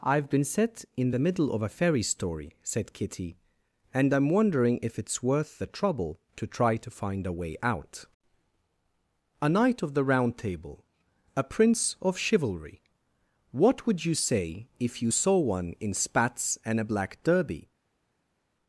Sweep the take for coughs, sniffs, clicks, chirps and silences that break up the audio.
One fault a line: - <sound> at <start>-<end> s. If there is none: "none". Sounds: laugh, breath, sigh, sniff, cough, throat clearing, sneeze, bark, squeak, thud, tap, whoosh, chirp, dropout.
none